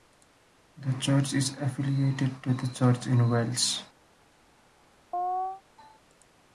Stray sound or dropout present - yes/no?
yes